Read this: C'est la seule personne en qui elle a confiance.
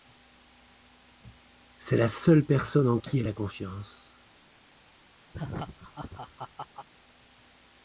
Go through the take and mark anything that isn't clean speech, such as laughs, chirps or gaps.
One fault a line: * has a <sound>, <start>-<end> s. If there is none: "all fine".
* has a laugh, 5.3-6.9 s